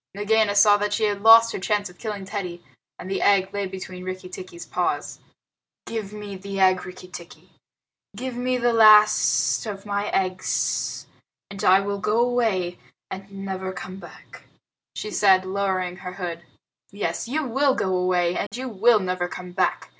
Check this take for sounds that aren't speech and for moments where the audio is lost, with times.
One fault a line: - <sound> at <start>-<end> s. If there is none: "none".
- dropout at 18.5-18.5 s